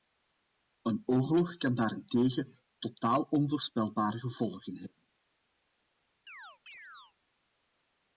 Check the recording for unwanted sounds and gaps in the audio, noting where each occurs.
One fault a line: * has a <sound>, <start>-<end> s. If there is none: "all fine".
* has a chirp, 6.3-7.1 s